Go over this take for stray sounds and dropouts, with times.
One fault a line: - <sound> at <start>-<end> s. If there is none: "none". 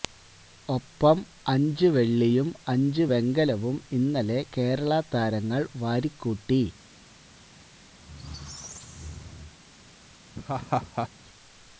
- squeak at 8.0-9.5 s
- laugh at 10.3-11.1 s